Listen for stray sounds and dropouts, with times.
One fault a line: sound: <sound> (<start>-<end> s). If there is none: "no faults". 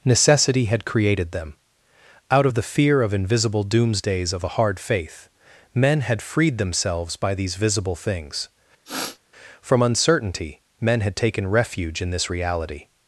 sound: sniff (8.8-9.2 s)